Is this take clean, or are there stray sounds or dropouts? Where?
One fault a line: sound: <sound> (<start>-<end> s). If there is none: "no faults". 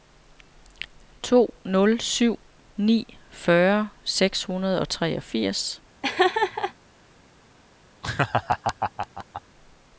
sound: laugh (6.0-6.7 s)
sound: laugh (8.0-9.4 s)